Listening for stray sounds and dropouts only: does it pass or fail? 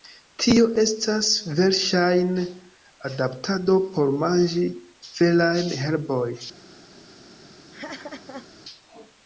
fail